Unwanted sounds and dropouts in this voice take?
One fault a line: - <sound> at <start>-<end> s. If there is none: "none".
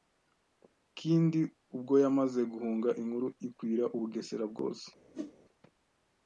- whoosh at 5.1-5.3 s